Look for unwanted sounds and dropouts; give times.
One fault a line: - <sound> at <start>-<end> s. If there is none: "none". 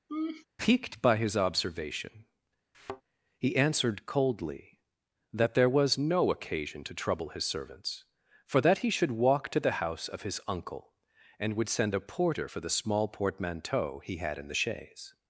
- laugh at 0.1-0.5 s
- thud at 2.7-3.0 s